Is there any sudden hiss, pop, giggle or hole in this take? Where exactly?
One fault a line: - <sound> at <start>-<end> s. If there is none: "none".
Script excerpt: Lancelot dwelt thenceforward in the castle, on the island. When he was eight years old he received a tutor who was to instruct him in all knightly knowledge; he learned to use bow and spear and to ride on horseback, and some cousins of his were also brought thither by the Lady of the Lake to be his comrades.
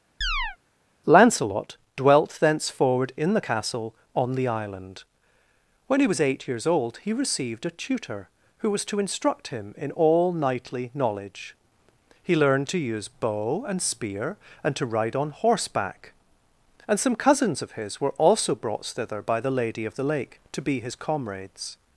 - chirp at 0.2-0.6 s